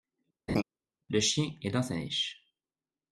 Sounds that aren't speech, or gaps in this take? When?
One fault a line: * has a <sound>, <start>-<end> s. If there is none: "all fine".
* has a laugh, 0.5-0.6 s